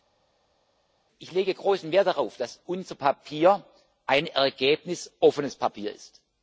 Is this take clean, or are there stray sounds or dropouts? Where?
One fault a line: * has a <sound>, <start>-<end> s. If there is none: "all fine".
all fine